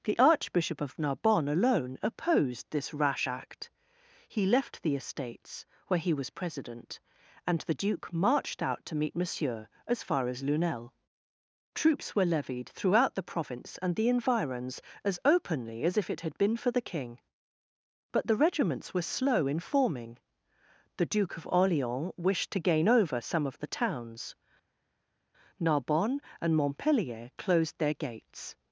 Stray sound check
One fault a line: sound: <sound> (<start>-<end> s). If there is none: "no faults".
no faults